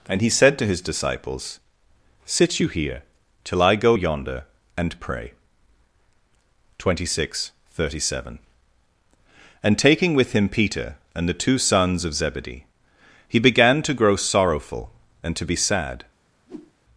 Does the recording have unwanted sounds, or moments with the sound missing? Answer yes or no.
yes